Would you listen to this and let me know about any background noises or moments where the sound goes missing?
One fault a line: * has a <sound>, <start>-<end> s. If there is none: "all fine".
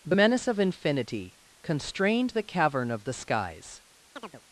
* has a chirp, 4.2-4.4 s